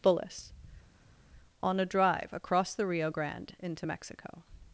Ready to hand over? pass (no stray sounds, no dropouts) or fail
pass